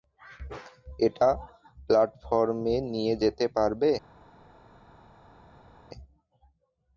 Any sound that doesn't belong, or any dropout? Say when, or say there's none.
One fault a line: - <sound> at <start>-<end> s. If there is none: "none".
none